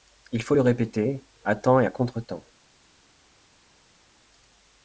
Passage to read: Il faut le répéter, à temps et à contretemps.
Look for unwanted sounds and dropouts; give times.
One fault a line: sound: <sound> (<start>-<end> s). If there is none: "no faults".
no faults